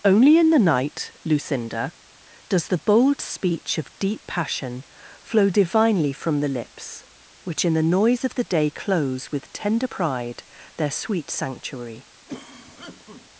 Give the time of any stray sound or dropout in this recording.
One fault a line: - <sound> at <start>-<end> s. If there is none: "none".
- cough at 12.3-13.3 s